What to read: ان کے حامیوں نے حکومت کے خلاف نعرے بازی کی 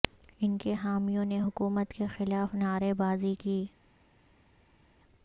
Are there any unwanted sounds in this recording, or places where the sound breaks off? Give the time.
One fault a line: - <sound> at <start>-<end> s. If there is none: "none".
none